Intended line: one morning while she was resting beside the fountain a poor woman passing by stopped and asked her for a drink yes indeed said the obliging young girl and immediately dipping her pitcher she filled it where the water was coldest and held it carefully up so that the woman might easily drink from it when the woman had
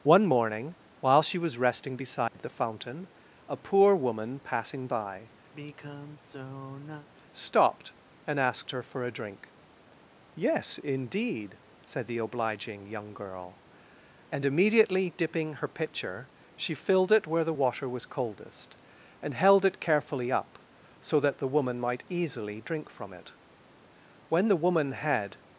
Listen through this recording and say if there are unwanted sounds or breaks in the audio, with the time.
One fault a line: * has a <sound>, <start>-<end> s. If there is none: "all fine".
* has a dropout, 2.3-2.3 s
* has a sigh, 5.5-7.1 s